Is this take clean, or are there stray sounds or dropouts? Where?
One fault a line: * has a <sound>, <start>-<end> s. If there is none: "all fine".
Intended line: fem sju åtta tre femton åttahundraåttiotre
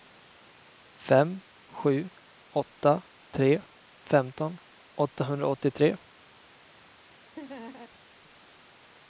* has a laugh, 7.4-7.9 s